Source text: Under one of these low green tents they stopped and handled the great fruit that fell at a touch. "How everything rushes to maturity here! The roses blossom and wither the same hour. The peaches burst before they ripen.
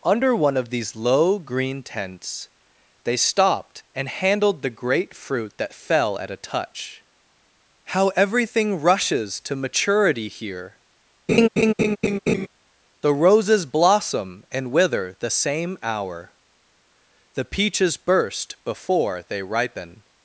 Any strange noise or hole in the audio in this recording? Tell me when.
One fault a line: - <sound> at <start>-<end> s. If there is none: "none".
- laugh at 11.3-12.5 s